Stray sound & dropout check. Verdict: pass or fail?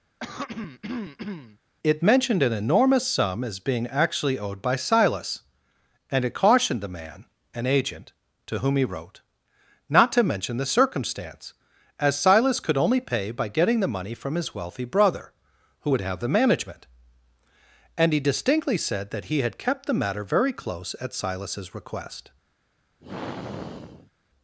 fail